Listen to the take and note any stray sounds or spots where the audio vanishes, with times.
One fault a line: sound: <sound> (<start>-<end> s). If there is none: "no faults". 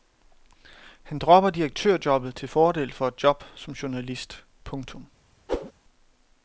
sound: whoosh (5.5-5.7 s)